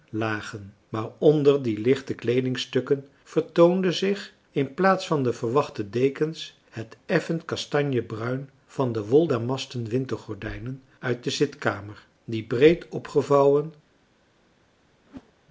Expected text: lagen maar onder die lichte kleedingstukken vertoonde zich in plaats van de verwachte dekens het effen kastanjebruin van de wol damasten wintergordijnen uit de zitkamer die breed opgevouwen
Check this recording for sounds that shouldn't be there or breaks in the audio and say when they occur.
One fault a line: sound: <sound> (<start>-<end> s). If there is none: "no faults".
sound: whoosh (15.0-15.3 s)